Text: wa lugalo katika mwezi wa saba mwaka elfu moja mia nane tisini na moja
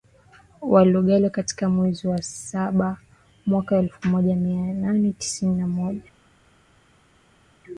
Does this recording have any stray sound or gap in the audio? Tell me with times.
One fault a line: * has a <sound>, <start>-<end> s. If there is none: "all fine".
all fine